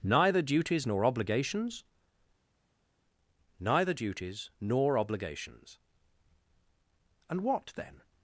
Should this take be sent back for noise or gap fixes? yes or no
no